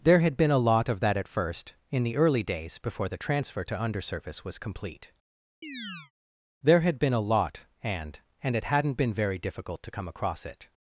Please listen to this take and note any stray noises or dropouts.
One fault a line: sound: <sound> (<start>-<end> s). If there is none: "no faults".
sound: chirp (5.6-6.1 s)